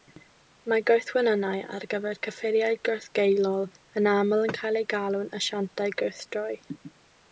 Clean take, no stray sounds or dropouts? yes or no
yes